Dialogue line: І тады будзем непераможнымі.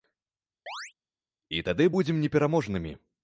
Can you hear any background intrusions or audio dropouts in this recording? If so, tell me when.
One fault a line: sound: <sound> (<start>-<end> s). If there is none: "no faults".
sound: chirp (0.7-0.9 s)